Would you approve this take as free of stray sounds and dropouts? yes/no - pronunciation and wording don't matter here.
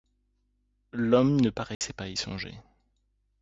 no